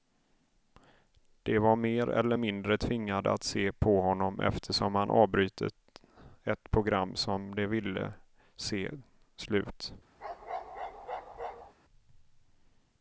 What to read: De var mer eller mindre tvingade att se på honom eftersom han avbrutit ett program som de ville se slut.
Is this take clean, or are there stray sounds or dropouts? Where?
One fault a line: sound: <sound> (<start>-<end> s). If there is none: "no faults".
sound: bark (10.2-11.7 s)